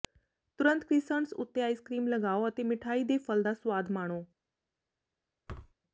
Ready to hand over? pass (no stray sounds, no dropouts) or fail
fail